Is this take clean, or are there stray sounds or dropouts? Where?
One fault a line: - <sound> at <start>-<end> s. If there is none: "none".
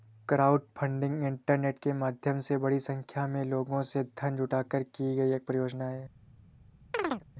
- chirp at 6.9-7.2 s